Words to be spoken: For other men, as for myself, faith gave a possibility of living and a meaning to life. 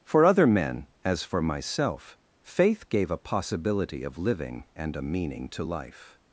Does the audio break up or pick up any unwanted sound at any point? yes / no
no